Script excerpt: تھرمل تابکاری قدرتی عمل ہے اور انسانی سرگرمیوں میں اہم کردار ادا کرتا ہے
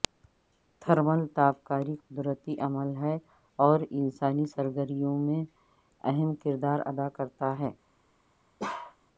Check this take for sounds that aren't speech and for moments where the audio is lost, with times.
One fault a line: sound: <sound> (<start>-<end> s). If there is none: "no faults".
sound: bark (8.6-9.0 s)